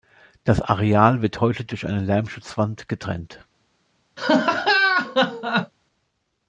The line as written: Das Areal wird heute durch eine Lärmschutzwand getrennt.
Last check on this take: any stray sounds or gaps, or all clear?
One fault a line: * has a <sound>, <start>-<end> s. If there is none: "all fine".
* has a laugh, 4.2-5.7 s